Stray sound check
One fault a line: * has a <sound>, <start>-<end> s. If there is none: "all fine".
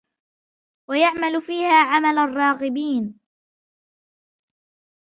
all fine